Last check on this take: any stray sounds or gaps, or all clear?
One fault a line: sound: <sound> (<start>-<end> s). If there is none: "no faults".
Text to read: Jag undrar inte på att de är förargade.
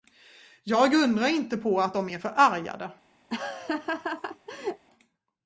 sound: laugh (3.3-4.9 s)